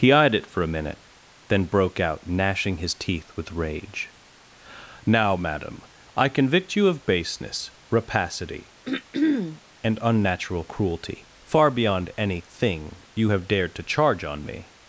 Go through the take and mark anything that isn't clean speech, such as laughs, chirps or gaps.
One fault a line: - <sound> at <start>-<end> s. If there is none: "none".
- throat clearing at 8.8-9.6 s